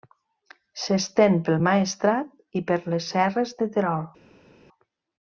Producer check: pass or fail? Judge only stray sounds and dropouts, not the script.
pass